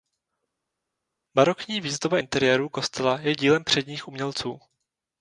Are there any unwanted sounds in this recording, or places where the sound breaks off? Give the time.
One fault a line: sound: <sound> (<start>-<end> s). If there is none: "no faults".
no faults